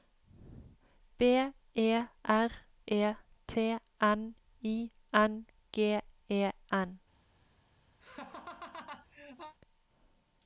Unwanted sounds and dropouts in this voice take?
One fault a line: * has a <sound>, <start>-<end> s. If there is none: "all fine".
* has a laugh, 8.0-9.6 s